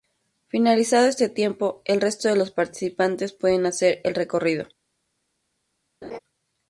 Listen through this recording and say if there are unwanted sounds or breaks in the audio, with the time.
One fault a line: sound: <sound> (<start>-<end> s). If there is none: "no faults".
sound: laugh (6.0-6.2 s)